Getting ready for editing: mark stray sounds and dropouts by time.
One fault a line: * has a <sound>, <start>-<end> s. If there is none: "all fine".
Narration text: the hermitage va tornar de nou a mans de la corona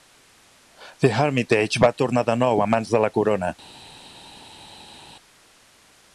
all fine